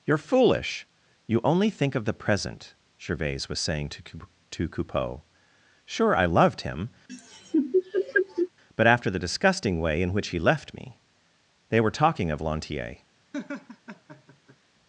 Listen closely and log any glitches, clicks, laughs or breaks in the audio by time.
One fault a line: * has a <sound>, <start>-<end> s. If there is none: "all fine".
* has a laugh, 7.1-8.5 s
* has a laugh, 13.3-14.6 s